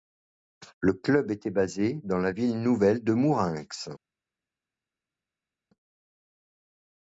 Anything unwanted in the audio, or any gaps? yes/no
no